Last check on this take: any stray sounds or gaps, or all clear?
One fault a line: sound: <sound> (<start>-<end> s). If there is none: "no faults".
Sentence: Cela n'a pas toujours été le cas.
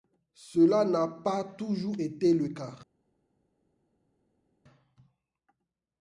no faults